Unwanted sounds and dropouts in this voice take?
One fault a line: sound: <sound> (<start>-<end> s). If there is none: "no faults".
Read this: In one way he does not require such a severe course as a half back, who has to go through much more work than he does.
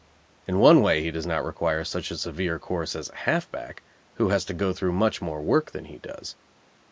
no faults